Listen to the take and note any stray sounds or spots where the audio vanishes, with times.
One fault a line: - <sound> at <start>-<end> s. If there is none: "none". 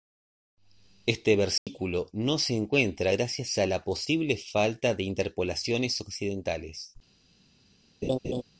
- dropout at 1.6-1.7 s
- laugh at 8.0-8.4 s